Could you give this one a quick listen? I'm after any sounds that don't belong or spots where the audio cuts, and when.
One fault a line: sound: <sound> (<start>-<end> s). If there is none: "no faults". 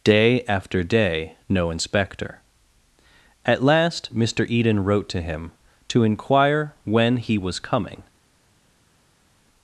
no faults